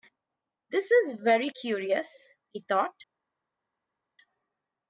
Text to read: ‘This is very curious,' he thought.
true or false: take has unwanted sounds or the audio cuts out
false